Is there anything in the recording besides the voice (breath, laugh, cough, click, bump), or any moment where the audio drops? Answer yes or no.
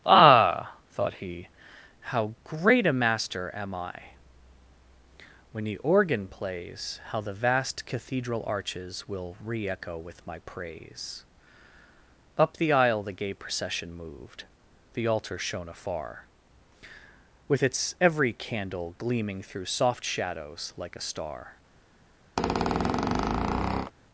yes